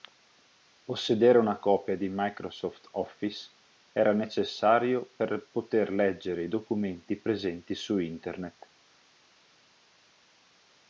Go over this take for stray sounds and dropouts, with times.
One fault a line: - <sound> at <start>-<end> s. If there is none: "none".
none